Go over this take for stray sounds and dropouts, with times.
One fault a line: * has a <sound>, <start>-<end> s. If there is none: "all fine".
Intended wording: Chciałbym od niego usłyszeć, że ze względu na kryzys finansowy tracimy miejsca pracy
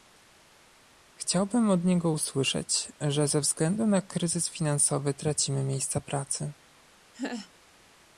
* has a laugh, 7.1-7.5 s